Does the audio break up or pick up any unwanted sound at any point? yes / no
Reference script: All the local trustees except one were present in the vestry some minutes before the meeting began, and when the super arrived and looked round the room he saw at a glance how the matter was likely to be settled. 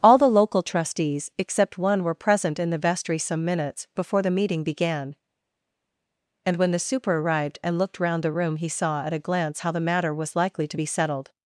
no